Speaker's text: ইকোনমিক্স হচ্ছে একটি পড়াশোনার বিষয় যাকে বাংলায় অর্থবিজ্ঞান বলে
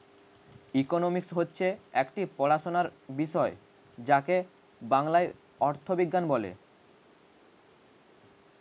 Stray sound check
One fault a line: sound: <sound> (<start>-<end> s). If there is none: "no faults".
no faults